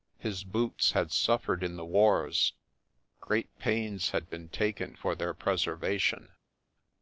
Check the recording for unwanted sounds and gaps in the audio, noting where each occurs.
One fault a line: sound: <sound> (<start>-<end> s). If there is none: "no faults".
no faults